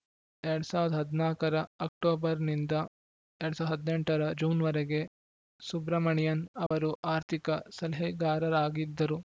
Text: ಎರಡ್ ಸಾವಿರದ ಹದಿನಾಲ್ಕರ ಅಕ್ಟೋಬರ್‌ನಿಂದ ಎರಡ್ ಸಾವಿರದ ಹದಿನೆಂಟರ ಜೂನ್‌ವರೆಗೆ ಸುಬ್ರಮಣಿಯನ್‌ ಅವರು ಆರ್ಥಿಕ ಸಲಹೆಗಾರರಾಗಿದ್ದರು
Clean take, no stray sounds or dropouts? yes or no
no